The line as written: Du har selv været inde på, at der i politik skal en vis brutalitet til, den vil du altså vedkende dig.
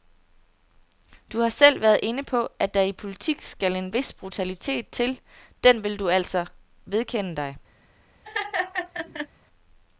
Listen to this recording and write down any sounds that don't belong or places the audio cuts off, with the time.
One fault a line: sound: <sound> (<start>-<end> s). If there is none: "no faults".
sound: laugh (8.2-9.3 s)